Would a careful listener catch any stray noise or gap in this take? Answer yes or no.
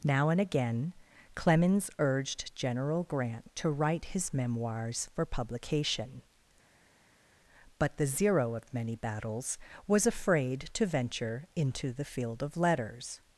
no